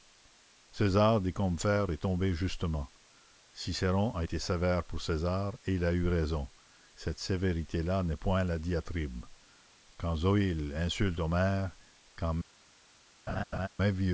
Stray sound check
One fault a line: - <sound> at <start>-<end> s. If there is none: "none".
- laugh at 13.3-13.7 s